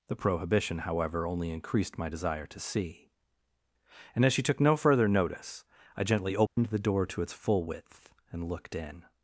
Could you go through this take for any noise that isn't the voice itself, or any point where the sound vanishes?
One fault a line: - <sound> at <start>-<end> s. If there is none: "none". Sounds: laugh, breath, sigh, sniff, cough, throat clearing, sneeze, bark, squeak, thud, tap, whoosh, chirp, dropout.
- dropout at 6.5-6.6 s